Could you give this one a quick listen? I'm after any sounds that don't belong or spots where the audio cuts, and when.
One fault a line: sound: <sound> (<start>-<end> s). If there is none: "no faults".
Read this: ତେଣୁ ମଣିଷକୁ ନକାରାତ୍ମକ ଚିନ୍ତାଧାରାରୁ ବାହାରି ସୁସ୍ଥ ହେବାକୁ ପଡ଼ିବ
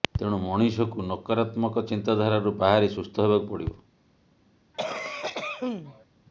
sound: cough (4.7-6.1 s)